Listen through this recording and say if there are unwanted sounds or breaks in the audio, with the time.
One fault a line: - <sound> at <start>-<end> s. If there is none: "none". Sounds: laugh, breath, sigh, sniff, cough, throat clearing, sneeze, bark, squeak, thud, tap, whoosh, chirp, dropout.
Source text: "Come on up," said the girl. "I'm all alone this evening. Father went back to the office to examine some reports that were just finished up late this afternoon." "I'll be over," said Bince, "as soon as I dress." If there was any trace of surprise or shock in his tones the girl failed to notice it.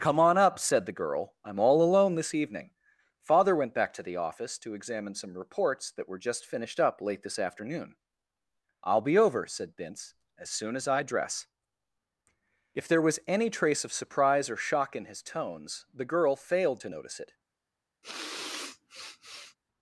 - sniff at 18.0-19.6 s